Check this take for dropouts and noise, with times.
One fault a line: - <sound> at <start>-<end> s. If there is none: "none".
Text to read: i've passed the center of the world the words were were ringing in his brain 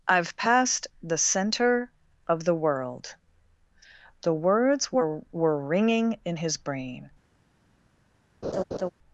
- laugh at 8.4-8.9 s